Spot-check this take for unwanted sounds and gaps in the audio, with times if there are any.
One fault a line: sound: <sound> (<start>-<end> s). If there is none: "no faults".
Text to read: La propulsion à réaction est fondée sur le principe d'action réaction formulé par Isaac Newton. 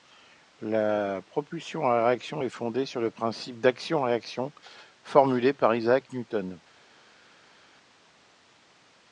no faults